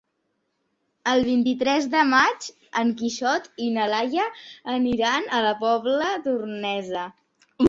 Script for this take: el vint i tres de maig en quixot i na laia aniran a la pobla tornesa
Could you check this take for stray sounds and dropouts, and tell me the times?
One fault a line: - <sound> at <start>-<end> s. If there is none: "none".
none